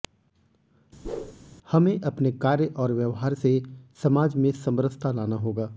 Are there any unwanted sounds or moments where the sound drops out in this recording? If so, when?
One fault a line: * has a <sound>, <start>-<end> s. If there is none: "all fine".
* has a whoosh, 1.0-1.3 s